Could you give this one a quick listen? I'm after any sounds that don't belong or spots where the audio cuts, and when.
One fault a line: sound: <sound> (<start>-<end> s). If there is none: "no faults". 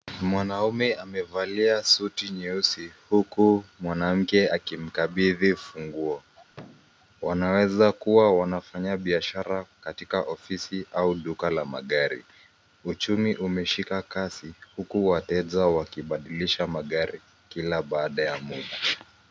sound: thud (6.5-7.0 s)